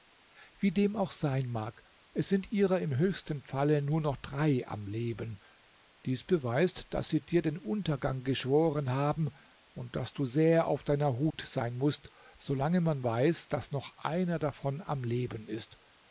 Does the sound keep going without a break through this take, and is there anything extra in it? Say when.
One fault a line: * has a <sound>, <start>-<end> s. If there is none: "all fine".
* has a dropout, 11.3-11.3 s